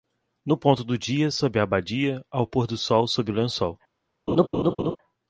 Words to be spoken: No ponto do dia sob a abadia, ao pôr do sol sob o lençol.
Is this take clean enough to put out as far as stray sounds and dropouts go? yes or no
no